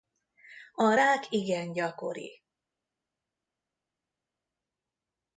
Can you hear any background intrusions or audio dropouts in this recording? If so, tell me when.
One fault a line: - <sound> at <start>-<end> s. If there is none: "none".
none